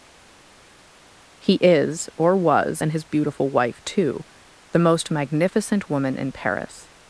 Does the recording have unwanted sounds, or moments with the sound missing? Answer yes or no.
no